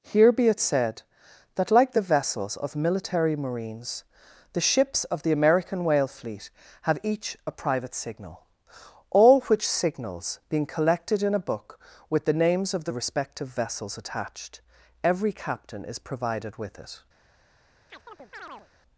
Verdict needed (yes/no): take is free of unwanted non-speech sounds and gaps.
no